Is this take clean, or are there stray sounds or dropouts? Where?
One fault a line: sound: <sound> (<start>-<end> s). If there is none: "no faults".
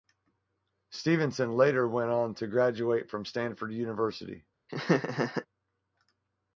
sound: laugh (4.7-5.5 s)